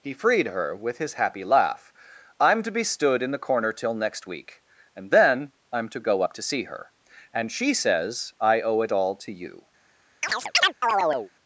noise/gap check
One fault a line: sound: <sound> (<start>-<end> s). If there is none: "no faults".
sound: chirp (10.2-11.3 s)